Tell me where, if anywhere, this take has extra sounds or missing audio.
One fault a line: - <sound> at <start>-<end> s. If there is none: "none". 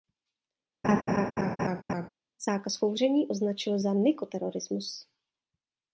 - laugh at 0.8-2.1 s